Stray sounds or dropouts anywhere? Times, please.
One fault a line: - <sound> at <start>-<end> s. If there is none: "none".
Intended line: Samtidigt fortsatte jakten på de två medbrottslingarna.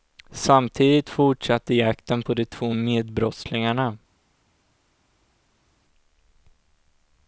none